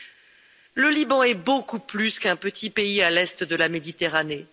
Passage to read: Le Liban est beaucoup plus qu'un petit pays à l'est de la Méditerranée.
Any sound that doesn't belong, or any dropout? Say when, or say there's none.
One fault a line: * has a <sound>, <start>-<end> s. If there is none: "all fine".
all fine